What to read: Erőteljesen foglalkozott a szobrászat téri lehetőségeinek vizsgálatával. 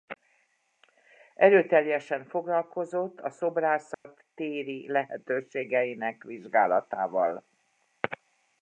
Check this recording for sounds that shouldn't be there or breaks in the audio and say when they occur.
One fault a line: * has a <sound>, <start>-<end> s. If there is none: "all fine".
* has a dropout, 3.9-4.0 s